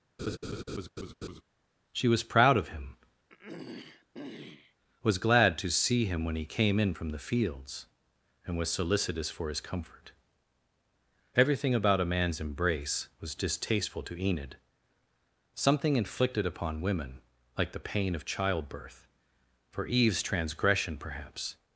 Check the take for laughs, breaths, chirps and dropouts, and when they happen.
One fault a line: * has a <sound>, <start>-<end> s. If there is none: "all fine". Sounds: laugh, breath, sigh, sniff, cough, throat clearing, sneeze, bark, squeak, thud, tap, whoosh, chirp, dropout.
* has a laugh, 0.2-1.4 s
* has a throat clearing, 3.3-4.7 s